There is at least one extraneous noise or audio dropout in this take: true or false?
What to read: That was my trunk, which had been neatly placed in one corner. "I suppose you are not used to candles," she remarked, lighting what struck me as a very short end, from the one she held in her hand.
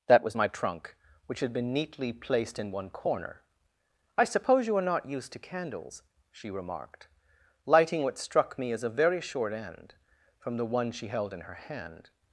false